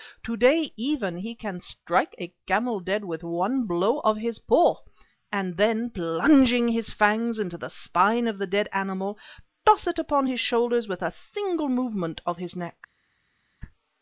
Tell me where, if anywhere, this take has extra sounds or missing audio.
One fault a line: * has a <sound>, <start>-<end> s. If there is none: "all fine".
all fine